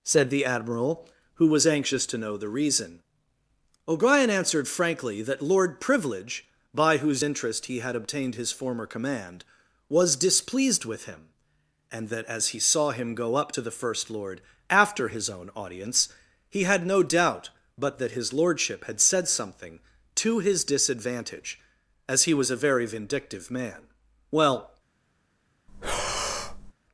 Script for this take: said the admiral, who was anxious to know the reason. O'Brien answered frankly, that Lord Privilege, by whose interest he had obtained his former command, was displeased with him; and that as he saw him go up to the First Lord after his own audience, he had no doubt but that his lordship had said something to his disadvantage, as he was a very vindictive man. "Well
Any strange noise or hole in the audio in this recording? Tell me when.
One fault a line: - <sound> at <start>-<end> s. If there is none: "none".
- breath at 25.7-26.7 s